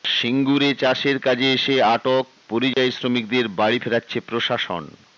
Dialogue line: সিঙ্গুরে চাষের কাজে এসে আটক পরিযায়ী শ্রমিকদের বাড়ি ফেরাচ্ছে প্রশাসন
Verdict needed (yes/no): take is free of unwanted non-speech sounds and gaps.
no